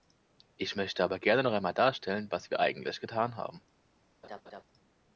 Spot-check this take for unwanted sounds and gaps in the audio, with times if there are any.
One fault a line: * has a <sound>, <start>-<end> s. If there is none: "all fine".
* has a laugh, 4.2-4.6 s